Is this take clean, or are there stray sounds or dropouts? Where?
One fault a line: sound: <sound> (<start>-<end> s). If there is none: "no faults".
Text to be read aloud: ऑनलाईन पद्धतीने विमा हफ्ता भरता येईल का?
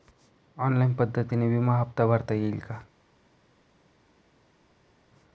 no faults